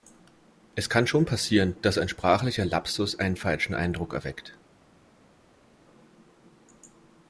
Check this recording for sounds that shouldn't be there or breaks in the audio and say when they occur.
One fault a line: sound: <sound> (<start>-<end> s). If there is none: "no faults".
no faults